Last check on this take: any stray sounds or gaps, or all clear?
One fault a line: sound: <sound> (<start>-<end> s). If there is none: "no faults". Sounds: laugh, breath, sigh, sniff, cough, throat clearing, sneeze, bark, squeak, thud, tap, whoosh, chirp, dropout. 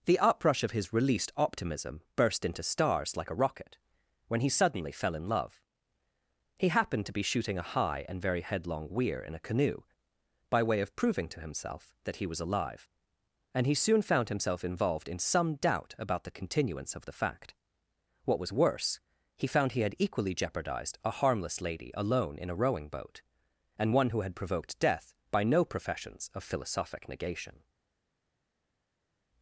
no faults